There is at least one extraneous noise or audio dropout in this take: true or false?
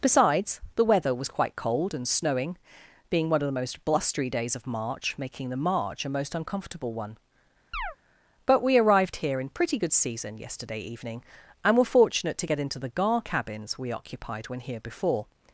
true